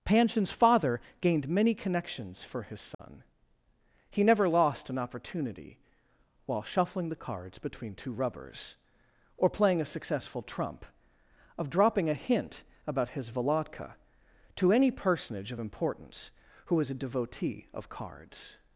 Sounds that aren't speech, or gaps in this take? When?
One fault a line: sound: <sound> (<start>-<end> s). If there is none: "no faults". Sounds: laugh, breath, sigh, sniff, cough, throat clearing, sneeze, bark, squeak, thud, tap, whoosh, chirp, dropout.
sound: dropout (2.9-3.0 s)